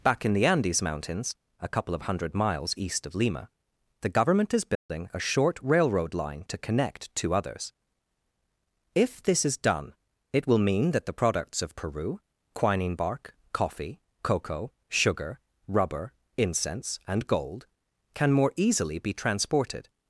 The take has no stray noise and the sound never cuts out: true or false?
false